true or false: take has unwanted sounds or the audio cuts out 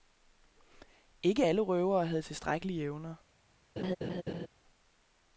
true